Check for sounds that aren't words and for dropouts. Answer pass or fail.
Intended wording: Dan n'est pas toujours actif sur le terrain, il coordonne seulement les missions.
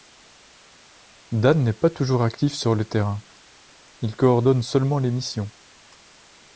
pass